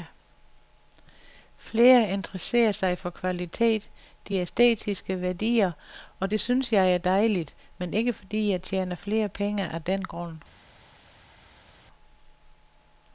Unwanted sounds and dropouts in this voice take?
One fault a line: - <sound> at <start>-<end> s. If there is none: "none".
none